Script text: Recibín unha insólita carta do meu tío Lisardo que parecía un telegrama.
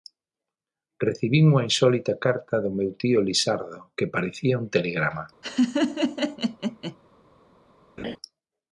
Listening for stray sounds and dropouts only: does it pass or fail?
fail